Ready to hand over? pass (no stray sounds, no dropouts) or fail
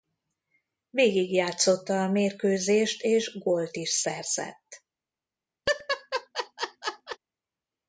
fail